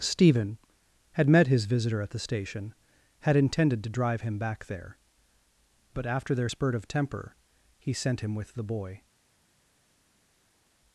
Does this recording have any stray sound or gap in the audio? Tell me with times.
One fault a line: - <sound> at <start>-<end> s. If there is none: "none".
none